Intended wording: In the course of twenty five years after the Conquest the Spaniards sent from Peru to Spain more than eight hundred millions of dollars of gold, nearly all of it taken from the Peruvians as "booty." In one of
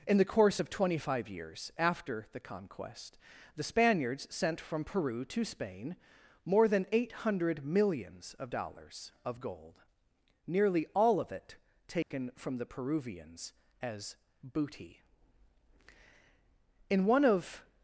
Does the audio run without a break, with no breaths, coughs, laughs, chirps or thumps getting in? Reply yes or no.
no